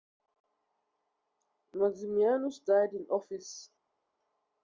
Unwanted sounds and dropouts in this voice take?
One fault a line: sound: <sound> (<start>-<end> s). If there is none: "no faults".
no faults